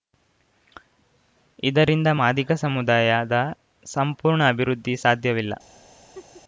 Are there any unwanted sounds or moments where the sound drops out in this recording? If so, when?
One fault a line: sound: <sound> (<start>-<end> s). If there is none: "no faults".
sound: laugh (6.1-6.4 s)